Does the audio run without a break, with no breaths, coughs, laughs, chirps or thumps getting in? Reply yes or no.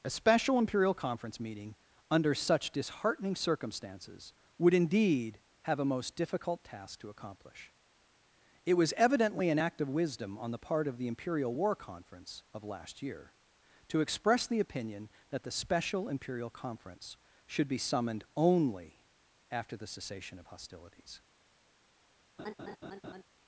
no